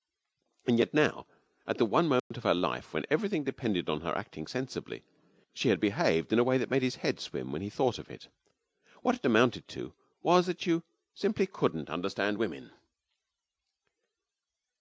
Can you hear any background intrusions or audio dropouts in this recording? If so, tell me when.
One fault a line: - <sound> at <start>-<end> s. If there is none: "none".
- dropout at 2.2-2.3 s